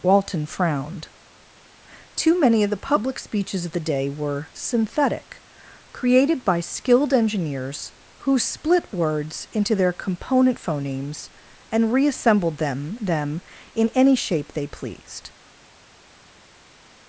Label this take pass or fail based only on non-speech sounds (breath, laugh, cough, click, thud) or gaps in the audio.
pass